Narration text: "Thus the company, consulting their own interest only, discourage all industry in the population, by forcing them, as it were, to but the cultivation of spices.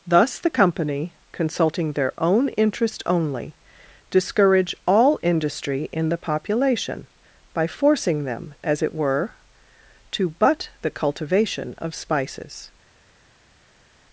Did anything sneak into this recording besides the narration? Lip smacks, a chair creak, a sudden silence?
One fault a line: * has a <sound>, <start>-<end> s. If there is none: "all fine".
all fine